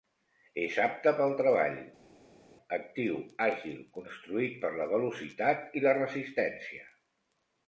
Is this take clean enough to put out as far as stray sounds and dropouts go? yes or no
yes